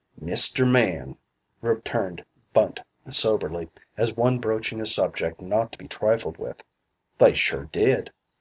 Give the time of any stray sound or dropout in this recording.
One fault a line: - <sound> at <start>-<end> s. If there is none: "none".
none